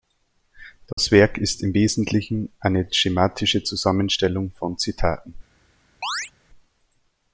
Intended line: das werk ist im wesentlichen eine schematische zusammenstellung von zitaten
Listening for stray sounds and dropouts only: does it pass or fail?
fail